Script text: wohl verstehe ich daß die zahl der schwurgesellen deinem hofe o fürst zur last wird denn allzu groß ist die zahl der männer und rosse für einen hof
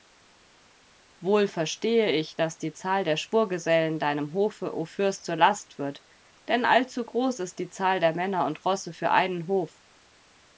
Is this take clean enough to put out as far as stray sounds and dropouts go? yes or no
yes